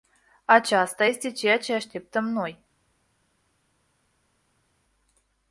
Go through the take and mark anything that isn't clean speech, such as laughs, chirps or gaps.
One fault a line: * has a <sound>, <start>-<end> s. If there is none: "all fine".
all fine